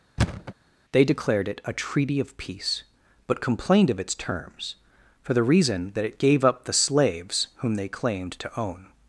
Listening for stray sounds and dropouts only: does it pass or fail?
fail